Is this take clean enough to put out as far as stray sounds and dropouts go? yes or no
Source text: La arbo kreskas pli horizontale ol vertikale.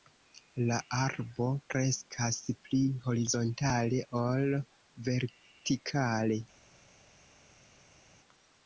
yes